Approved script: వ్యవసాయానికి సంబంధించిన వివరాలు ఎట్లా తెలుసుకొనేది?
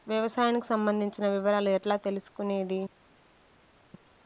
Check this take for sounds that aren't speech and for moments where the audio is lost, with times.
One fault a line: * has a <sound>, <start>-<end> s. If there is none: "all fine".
all fine